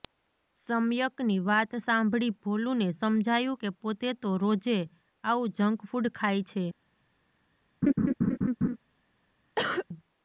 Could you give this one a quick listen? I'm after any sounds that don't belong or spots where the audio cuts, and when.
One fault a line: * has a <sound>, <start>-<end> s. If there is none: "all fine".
* has a laugh, 7.8-8.8 s
* has a cough, 9.6-9.9 s